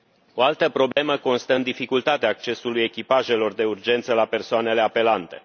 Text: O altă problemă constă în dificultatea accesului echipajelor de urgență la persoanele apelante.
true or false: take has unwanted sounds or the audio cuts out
true